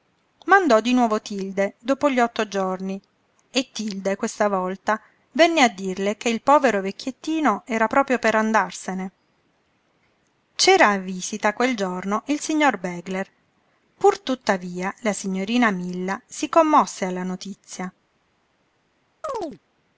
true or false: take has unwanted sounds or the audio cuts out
true